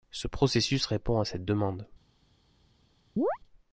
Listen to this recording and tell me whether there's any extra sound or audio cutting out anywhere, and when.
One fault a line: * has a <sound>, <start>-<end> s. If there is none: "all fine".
* has a chirp, 3.2-3.4 s